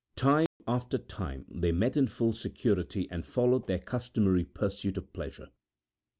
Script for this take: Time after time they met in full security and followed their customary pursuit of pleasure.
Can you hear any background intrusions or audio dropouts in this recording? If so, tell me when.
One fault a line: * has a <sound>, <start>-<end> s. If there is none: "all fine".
* has a dropout, 0.5-0.6 s